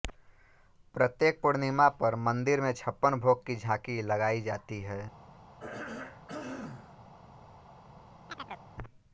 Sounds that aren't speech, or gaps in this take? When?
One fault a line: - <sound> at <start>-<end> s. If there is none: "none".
- throat clearing at 5.6-7.0 s
- chirp at 8.3-8.7 s